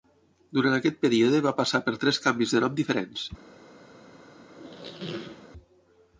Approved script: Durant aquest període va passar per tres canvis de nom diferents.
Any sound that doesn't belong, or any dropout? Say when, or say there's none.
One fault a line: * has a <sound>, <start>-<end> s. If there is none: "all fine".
* has a squeak, 4.5-5.5 s